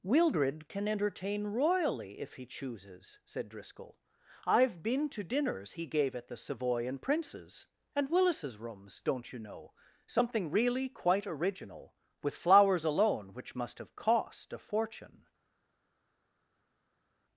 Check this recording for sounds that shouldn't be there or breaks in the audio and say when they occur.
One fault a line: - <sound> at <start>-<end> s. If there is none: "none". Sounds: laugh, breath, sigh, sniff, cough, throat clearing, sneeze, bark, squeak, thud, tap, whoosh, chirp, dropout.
none